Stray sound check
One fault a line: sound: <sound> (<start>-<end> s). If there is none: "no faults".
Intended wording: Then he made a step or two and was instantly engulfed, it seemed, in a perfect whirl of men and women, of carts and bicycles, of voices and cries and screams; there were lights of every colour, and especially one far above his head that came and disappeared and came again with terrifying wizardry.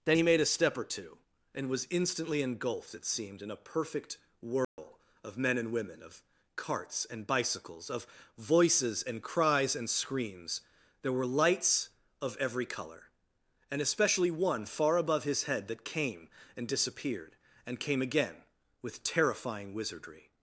sound: dropout (4.6-4.8 s)